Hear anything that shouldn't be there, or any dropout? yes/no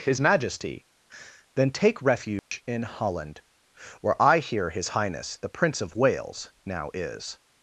yes